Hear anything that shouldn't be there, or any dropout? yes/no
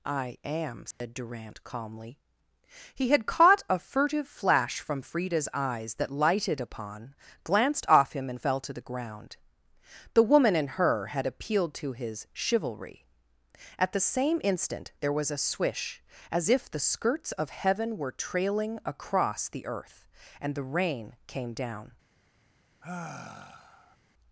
yes